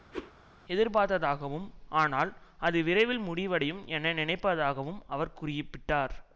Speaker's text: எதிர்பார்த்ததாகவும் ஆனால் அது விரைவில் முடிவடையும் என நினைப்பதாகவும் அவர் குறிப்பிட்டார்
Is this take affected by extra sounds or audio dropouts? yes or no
yes